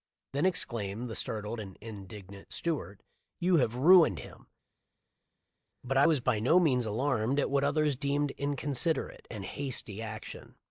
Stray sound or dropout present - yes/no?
no